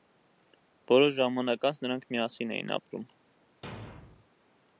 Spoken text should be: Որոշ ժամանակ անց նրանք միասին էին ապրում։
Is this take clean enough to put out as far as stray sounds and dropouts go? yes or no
no